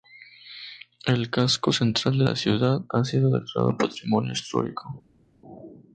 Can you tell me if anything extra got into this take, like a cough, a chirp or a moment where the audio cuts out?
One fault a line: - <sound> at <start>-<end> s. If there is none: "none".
none